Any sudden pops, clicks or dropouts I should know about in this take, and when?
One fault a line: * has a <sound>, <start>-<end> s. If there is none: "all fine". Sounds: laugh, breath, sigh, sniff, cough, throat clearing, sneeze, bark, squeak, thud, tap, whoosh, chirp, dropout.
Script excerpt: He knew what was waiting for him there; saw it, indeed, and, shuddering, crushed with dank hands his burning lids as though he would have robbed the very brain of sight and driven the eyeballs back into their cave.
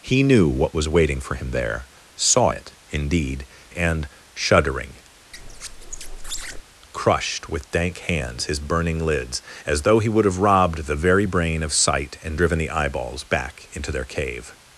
* has a squeak, 5.3-6.6 s